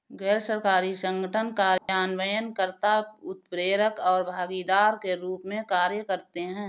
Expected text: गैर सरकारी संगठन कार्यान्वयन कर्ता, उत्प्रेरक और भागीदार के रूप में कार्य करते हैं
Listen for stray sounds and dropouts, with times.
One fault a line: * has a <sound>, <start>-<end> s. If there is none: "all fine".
* has a dropout, 1.8-1.9 s